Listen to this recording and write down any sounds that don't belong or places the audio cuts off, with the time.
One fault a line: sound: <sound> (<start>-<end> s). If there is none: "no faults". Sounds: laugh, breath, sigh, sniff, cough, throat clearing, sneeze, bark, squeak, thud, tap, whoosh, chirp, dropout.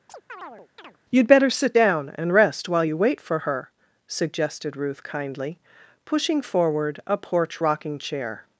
sound: chirp (0.1-1.0 s)